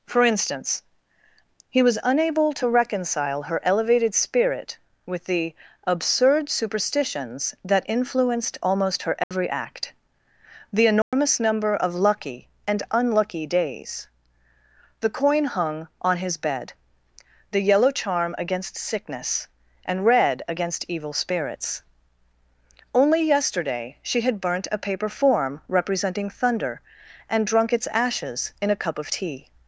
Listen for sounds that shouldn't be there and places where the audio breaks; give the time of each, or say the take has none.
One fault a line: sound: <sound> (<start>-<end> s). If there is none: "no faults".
sound: dropout (9.2-9.3 s)
sound: dropout (11.0-11.1 s)